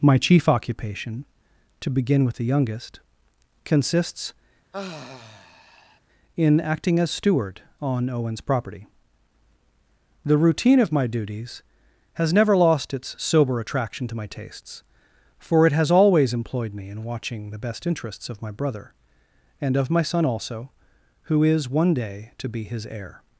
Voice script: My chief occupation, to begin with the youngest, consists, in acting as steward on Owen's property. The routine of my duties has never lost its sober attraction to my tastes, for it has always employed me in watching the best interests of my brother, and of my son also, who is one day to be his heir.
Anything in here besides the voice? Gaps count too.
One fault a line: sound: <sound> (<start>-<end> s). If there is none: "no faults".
sound: sigh (4.7-6.0 s)